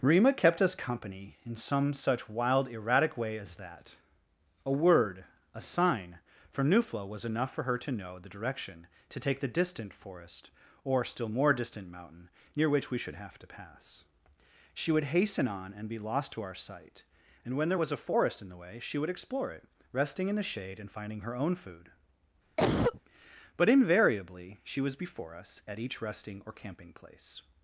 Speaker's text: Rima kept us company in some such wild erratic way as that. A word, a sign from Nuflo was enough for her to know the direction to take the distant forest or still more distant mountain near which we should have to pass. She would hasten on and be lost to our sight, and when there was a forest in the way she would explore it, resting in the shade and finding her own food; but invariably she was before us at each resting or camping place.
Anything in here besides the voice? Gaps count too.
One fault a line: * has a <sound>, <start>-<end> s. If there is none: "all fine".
* has a cough, 22.6-23.0 s